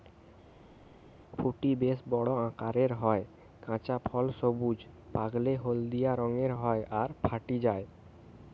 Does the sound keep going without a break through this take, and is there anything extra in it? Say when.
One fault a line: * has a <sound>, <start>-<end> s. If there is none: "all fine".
all fine